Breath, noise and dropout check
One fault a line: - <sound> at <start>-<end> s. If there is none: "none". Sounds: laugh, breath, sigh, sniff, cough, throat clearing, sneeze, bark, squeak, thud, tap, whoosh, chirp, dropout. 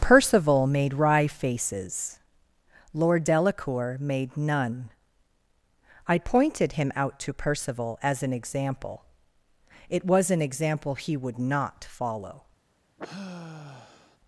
- sigh at 13.0-14.2 s